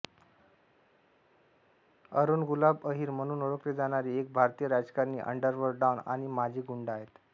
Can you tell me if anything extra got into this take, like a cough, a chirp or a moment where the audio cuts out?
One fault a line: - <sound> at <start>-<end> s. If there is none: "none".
none